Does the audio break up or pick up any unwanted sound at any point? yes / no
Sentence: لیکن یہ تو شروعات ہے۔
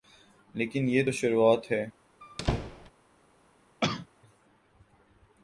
yes